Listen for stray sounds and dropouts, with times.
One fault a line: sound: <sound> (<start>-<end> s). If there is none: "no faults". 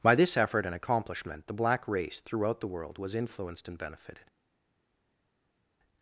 no faults